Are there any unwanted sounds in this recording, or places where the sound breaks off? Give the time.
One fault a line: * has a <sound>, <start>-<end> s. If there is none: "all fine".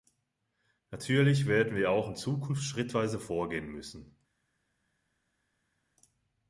all fine